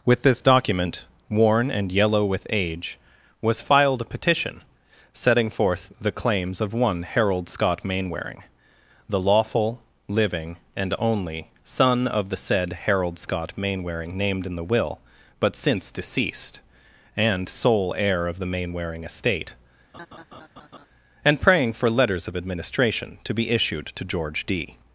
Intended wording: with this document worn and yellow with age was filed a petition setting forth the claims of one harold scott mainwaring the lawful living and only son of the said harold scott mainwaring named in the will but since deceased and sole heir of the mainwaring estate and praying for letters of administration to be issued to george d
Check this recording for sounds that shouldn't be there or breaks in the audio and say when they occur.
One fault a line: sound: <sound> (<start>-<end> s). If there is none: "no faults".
sound: laugh (19.9-20.9 s)